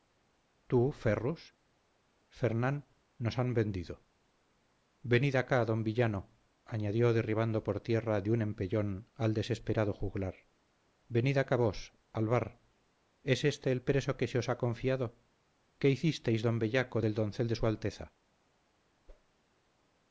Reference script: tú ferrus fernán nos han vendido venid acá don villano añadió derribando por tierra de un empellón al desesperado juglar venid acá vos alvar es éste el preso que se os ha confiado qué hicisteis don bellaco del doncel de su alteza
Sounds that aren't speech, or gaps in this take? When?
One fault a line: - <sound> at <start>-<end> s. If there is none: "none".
- whoosh at 19.1-19.3 s